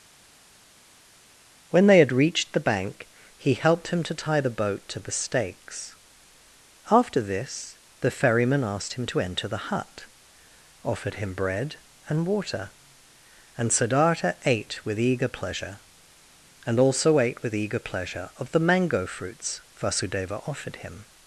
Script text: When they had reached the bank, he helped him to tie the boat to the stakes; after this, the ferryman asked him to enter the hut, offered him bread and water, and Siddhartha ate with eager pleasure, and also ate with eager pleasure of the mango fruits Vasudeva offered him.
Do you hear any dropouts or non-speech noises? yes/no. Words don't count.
no